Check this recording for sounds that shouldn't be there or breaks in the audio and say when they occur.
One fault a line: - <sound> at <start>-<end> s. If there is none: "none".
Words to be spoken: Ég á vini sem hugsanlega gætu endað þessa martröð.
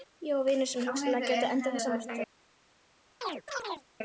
- chirp at 3.2-3.9 s